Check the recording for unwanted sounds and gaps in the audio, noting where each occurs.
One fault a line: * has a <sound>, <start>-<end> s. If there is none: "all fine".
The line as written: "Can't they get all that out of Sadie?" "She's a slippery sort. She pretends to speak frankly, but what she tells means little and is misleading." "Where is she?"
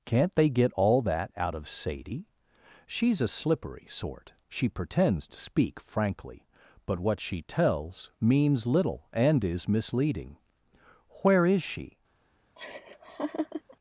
* has a laugh, 12.6-13.8 s